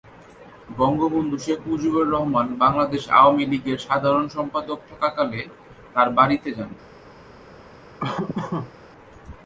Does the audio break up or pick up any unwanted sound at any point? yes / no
yes